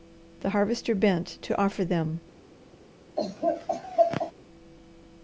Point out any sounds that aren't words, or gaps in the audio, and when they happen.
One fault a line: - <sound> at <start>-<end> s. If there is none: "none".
- laugh at 3.2-4.3 s